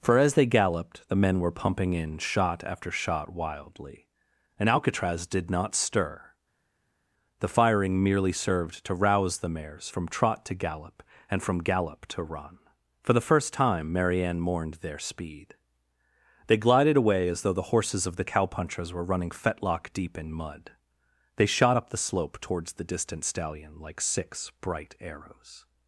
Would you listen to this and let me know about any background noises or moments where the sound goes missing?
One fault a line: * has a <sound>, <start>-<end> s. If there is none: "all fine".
all fine